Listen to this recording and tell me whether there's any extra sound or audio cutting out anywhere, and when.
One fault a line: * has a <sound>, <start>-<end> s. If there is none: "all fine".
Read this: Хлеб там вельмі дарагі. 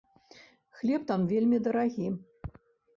all fine